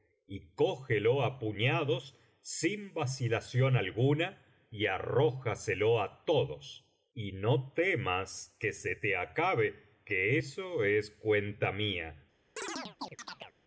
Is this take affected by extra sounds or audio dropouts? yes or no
yes